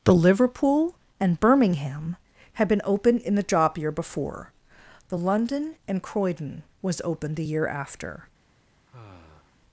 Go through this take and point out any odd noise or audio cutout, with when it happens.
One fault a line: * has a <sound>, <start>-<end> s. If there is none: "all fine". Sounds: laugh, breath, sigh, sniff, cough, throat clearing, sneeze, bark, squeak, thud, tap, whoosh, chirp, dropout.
* has a sigh, 8.9-9.6 s